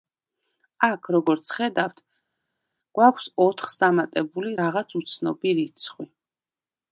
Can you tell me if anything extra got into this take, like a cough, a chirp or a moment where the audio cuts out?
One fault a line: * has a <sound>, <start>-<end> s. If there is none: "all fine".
all fine